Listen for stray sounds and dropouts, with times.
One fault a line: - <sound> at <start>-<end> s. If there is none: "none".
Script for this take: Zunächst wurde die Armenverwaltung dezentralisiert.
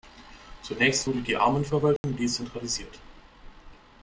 - dropout at 2.0-2.0 s